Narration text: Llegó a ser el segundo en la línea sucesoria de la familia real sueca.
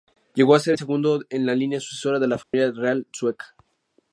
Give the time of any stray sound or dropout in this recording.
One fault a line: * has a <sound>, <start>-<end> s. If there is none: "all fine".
* has a dropout, 2.4-2.5 s